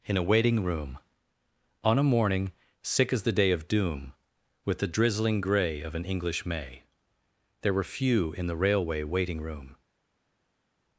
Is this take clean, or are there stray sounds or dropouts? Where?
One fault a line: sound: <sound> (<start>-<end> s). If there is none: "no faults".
no faults